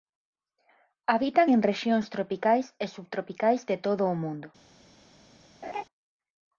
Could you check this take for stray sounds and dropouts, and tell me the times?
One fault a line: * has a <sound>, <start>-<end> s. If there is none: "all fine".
* has a laugh, 5.6-5.8 s